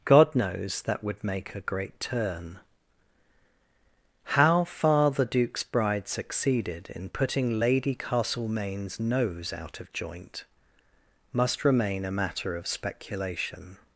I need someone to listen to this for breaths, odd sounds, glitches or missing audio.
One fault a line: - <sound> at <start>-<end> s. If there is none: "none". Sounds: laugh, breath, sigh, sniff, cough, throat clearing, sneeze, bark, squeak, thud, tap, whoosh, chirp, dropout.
none